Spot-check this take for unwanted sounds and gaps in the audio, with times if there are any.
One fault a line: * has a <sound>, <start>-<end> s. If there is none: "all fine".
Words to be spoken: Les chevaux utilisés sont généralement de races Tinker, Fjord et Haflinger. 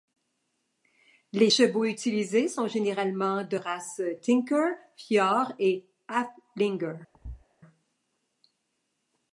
* has a thud, 7.1-7.5 s